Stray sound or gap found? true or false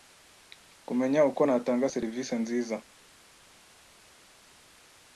false